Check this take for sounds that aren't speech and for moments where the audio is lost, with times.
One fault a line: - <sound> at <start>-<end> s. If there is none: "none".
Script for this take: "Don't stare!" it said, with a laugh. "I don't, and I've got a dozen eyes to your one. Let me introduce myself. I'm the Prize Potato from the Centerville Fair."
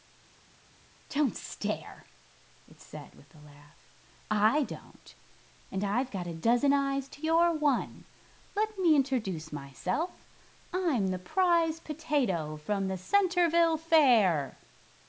none